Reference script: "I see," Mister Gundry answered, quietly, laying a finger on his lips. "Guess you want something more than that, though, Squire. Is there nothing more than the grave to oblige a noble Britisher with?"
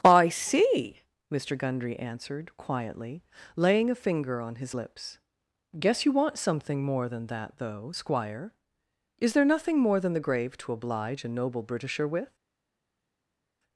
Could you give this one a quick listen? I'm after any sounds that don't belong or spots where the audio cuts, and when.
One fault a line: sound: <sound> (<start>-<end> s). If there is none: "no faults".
no faults